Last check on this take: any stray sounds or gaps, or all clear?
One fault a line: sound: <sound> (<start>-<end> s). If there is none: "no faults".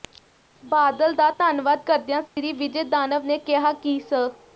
sound: dropout (2.3-2.4 s)